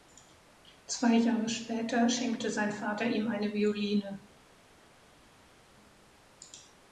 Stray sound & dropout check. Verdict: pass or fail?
pass